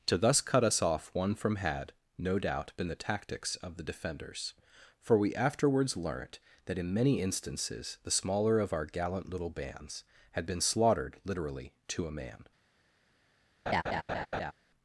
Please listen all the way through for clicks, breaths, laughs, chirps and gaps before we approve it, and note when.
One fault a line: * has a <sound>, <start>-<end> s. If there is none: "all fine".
* has a laugh, 13.7-14.5 s